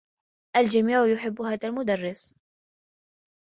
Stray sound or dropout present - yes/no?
no